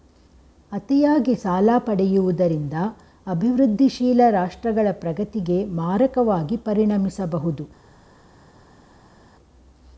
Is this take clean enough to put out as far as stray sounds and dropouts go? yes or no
yes